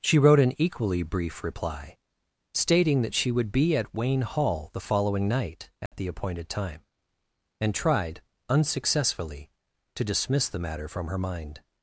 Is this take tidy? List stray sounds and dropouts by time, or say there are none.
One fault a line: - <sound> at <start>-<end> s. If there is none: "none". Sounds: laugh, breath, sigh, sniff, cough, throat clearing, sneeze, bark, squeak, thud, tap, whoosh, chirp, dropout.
- dropout at 5.9-5.9 s